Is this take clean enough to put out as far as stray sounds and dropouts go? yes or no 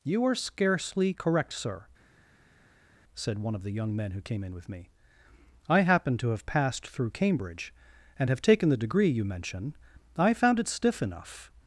yes